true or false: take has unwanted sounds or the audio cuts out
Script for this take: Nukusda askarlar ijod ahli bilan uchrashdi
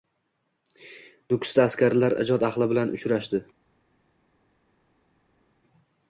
false